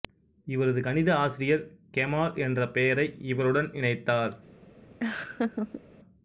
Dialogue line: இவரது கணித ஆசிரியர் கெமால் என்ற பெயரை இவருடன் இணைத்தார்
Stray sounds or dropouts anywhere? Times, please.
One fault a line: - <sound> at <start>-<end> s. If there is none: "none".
- laugh at 5.0-5.8 s